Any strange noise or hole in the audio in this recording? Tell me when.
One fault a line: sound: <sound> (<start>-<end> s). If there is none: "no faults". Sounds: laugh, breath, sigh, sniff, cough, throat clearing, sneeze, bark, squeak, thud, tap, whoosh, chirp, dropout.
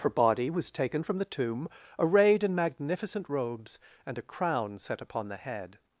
no faults